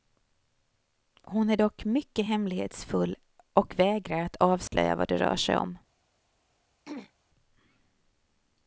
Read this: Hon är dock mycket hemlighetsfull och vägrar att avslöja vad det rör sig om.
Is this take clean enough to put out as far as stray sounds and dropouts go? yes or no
no